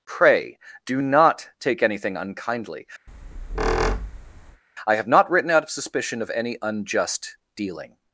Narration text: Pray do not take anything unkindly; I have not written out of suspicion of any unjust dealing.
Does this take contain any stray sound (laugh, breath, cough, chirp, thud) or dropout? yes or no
yes